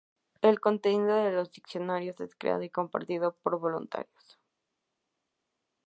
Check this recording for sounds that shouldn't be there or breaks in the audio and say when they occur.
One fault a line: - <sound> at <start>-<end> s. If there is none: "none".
none